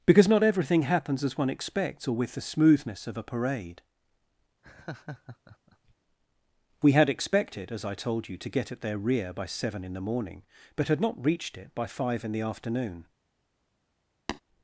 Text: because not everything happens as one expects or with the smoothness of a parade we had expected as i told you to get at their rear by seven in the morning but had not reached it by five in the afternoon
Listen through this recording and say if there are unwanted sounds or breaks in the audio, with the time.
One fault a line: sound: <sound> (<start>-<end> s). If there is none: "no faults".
sound: laugh (4.6-5.9 s)
sound: tap (14.3-14.4 s)